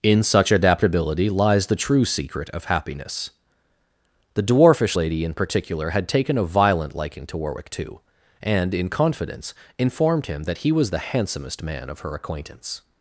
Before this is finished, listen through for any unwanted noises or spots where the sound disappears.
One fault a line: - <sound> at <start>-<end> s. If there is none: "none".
none